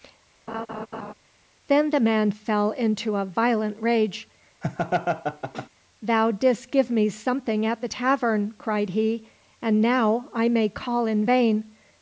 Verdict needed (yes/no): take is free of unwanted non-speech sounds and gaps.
no